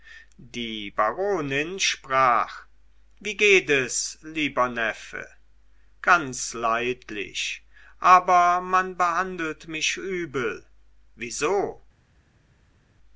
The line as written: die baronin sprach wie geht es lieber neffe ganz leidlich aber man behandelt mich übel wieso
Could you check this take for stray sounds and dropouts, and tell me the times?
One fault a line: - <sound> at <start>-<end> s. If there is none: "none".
none